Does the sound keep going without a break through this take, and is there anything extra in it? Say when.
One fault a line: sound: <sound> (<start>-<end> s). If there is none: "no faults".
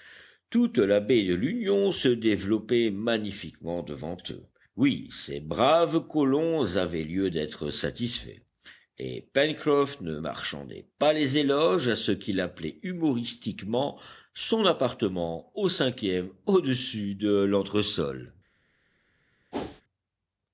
sound: whoosh (19.5-19.8 s)